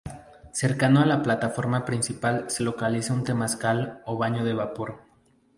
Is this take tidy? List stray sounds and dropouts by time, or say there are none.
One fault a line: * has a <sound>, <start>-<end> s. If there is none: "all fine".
all fine